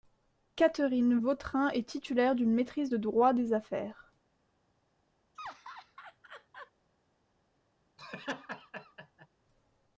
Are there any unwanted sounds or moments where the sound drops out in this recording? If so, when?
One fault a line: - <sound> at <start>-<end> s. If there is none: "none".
- laugh at 5.4-6.7 s
- laugh at 8.0-9.3 s